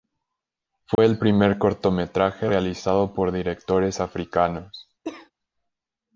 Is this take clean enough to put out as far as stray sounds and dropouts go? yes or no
no